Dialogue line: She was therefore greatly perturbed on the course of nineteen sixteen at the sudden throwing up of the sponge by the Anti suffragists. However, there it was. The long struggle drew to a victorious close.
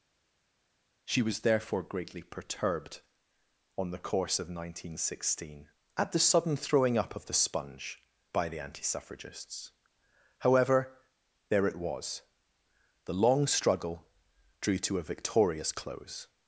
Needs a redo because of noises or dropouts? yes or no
no